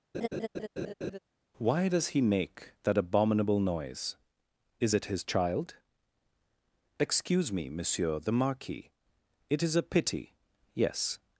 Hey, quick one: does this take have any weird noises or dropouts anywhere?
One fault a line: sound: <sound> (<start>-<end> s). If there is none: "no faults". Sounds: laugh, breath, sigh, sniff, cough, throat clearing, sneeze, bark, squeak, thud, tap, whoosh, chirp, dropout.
sound: laugh (0.1-1.2 s)